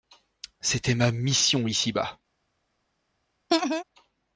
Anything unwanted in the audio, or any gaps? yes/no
yes